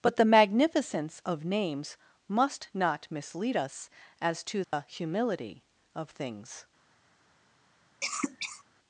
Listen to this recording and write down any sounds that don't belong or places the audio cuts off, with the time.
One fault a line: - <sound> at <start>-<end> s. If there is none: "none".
- dropout at 4.6-4.7 s
- cough at 8.0-8.6 s